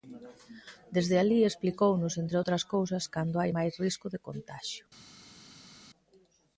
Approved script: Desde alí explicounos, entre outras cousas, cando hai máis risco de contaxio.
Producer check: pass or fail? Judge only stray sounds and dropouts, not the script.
pass